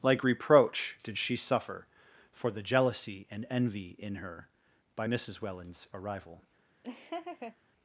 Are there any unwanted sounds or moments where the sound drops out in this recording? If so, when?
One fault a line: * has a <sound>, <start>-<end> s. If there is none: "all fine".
* has a laugh, 6.8-7.6 s